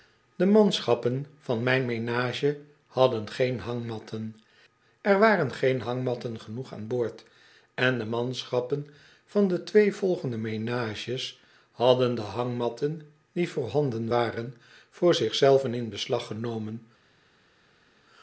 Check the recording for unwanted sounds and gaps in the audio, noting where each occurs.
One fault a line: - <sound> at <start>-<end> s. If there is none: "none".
none